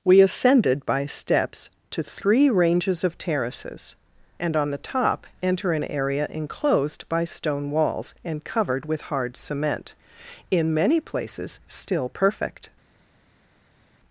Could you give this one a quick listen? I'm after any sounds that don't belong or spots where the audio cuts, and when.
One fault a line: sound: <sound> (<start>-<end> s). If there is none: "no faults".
no faults